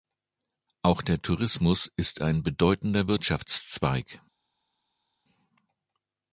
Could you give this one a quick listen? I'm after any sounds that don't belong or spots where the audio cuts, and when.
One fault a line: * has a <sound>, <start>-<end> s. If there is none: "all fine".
all fine